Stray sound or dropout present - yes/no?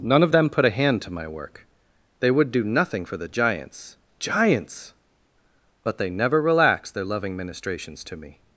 no